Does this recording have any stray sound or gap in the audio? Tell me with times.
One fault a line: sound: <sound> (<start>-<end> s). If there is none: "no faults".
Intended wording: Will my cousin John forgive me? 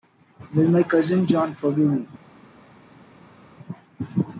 no faults